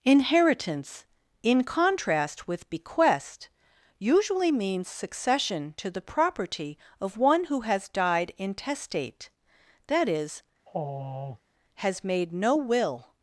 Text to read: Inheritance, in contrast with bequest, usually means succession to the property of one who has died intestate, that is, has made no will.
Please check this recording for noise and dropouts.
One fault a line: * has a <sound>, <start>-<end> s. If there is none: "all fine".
* has a sigh, 10.7-11.4 s